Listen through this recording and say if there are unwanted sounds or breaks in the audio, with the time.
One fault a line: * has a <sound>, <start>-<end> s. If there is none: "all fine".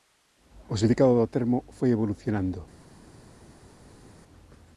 all fine